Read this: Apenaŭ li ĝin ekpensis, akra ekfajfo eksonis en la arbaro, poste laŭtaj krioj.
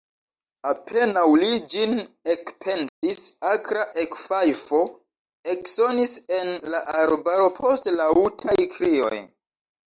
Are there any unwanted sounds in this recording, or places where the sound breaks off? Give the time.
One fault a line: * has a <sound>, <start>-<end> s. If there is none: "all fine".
* has a dropout, 2.9-3.0 s